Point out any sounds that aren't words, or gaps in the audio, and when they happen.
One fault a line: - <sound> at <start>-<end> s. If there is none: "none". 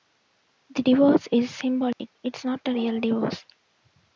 - dropout at 1.9-2.0 s